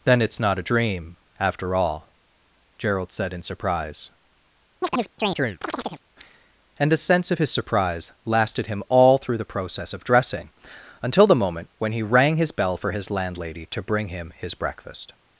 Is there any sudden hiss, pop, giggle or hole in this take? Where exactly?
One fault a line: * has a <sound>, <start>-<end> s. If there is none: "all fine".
* has a chirp, 4.8-6.0 s